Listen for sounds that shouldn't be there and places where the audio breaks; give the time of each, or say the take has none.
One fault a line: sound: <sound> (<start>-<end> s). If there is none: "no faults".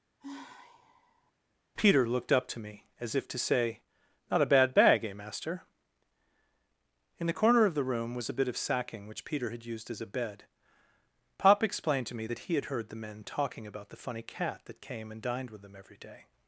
sound: sigh (0.2-1.3 s)